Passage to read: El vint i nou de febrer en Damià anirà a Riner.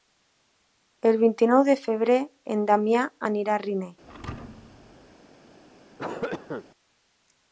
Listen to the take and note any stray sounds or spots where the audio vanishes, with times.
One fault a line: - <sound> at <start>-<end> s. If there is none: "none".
- thud at 4.0-5.2 s
- cough at 6.0-6.6 s